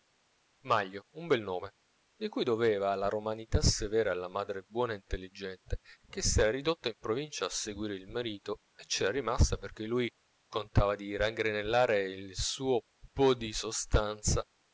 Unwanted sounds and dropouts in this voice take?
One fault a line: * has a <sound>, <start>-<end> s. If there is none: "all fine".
all fine